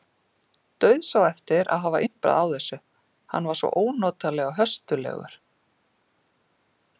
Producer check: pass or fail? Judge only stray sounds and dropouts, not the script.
pass